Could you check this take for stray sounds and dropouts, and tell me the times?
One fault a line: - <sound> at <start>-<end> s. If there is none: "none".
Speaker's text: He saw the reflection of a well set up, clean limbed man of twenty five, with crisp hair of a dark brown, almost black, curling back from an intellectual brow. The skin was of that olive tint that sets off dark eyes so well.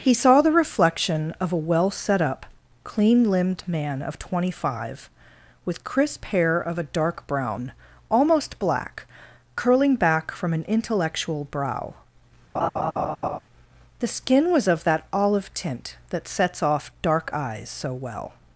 - laugh at 12.5-13.4 s